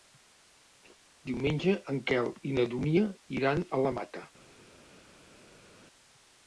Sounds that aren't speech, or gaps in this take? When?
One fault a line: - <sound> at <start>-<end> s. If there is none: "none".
none